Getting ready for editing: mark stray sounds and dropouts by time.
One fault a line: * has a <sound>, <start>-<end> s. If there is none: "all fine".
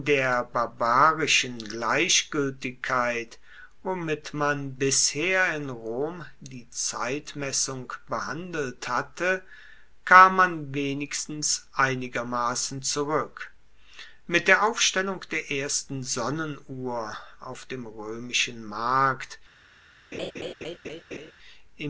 * has a laugh, 20.1-21.3 s